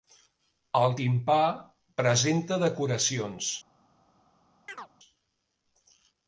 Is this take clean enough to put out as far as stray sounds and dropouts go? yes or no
no